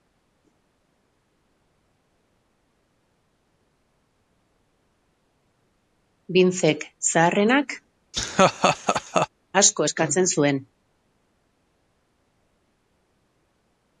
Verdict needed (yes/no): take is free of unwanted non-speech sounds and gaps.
no